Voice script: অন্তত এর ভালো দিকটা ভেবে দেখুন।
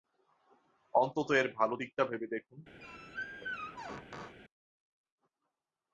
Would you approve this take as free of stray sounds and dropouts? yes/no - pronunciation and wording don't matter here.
no